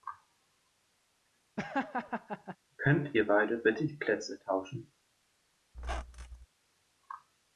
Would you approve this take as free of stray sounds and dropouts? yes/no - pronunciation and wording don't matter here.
no